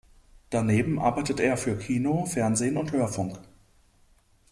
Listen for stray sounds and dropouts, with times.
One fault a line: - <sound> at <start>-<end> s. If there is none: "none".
none